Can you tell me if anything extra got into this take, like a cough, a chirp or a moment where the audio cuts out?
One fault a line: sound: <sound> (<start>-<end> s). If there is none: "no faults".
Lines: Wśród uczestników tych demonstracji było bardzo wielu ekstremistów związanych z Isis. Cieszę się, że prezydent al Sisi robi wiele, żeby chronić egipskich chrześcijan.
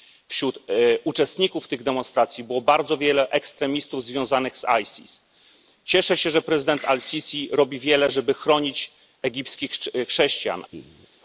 sound: laugh (10.7-11.1 s)